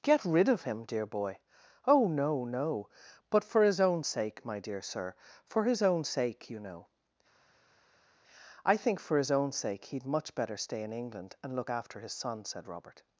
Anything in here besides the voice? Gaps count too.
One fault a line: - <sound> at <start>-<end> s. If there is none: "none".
none